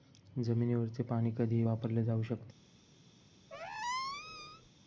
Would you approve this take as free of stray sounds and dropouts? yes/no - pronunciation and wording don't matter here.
no